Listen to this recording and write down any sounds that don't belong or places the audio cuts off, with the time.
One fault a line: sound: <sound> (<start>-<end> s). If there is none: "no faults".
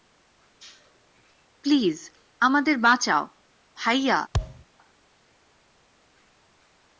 sound: thud (4.3-4.6 s)